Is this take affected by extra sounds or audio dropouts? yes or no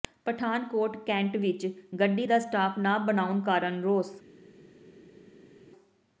no